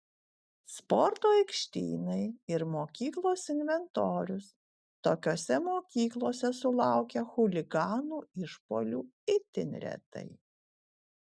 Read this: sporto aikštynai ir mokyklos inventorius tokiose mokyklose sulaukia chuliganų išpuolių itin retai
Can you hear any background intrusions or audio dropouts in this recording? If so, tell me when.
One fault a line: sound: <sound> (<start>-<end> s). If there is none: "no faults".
no faults